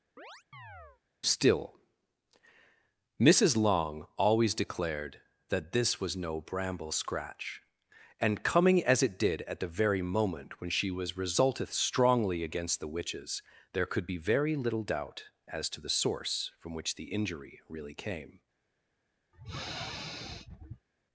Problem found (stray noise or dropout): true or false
true